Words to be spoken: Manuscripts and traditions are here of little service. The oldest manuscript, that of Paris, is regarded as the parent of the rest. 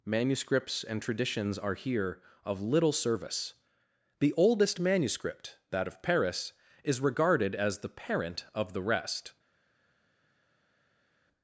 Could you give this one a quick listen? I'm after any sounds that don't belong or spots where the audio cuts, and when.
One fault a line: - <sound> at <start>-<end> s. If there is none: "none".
none